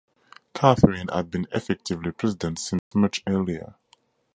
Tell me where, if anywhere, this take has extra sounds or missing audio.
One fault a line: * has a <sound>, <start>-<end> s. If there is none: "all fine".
* has a dropout, 2.8-2.9 s